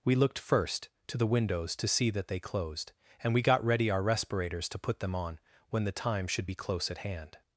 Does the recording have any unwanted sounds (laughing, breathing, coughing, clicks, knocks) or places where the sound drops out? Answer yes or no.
no